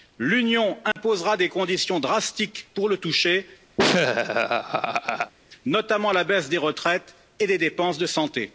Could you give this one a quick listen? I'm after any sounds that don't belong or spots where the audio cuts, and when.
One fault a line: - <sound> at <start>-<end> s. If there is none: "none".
- dropout at 0.9-1.0 s
- laugh at 3.8-5.3 s